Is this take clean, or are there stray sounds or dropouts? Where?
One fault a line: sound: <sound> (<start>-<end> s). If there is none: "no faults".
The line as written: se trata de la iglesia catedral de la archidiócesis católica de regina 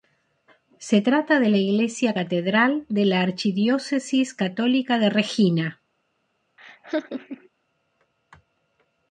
sound: laugh (6.6-7.5 s)